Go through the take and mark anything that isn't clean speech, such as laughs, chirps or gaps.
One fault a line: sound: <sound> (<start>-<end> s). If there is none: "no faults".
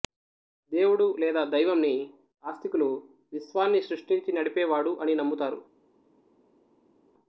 no faults